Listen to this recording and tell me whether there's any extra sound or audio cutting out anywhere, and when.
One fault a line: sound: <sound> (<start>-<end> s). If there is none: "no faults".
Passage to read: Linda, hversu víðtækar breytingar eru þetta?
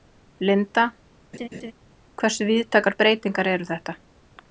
sound: laugh (1.3-1.7 s)